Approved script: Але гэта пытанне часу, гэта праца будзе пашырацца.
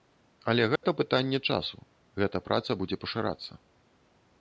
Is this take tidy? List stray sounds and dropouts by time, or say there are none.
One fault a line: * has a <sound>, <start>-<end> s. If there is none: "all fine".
* has a dropout, 0.8-0.8 s